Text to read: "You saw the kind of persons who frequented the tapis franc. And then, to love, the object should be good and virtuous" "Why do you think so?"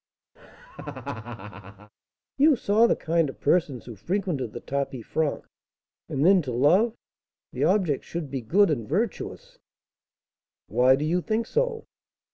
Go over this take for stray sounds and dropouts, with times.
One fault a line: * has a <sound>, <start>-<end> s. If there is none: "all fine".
* has a laugh, 0.4-1.9 s